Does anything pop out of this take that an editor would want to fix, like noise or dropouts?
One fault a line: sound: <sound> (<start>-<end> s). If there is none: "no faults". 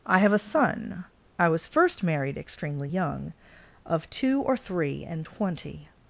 no faults